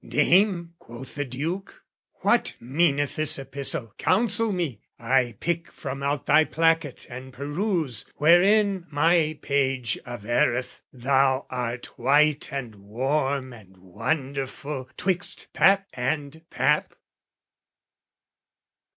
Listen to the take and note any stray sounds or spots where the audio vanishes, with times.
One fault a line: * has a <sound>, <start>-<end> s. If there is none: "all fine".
all fine